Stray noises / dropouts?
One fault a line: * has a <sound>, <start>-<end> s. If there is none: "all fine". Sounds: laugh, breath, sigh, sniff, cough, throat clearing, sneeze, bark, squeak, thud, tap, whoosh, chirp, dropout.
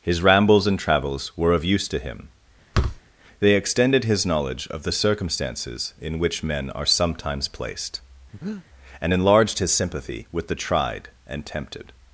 * has a thud, 2.7-3.0 s
* has a breath, 8.3-8.7 s